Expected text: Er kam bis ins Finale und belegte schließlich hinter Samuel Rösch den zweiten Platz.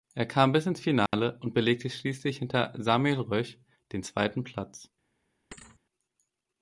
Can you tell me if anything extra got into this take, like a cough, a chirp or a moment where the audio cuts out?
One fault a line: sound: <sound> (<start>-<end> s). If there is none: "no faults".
sound: dropout (1.1-1.1 s)
sound: thud (5.5-5.8 s)